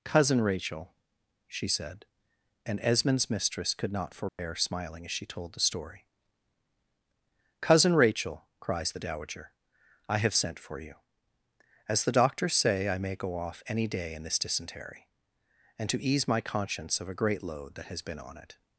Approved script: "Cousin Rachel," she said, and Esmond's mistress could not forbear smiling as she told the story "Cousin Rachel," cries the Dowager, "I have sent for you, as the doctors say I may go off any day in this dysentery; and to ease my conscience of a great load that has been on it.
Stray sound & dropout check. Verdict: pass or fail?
fail